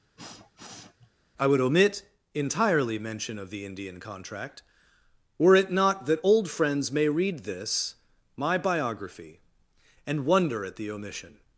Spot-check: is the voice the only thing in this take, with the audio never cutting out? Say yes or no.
no